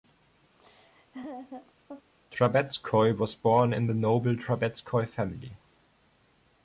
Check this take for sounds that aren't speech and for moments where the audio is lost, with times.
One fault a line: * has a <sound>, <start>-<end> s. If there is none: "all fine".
* has a laugh, 0.6-2.1 s